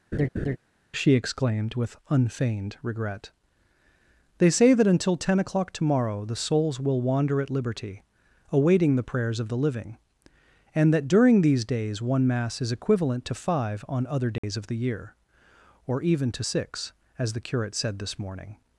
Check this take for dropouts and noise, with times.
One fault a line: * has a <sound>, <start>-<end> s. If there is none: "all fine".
* has a laugh, 0.1-0.6 s
* has a dropout, 14.4-14.4 s